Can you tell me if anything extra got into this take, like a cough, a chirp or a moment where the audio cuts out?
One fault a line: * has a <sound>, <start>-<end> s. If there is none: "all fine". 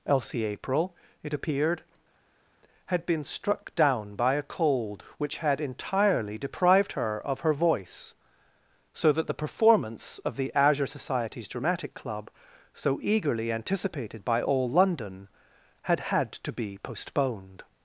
all fine